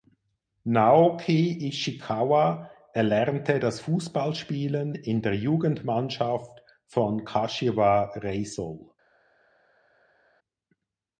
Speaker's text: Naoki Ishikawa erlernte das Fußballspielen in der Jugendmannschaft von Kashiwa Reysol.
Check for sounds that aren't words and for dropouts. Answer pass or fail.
pass